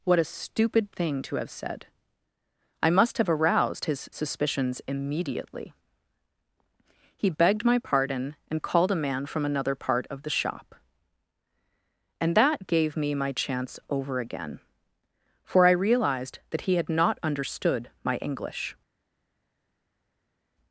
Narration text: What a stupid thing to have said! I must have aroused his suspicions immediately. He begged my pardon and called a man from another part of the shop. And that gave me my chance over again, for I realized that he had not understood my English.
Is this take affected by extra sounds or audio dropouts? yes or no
no